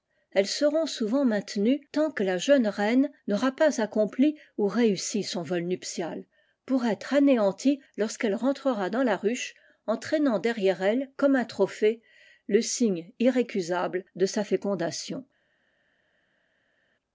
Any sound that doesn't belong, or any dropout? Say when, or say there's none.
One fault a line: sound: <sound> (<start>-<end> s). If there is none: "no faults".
no faults